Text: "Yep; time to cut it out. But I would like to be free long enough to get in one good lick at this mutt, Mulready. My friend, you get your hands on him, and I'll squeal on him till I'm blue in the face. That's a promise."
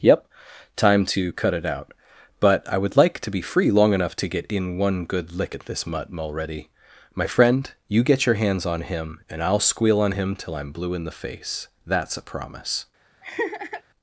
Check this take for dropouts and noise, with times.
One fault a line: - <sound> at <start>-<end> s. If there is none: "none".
- laugh at 13.2-13.8 s